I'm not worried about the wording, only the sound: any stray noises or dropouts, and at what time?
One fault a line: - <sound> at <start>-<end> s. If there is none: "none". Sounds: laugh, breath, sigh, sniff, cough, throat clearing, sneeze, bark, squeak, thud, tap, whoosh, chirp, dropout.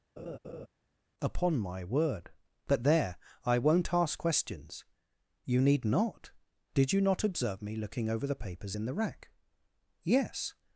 - laugh at 0.2-0.7 s